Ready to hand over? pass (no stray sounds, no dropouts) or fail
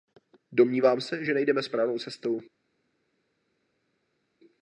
pass